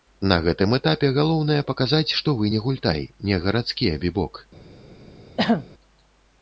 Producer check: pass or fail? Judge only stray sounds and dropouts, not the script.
fail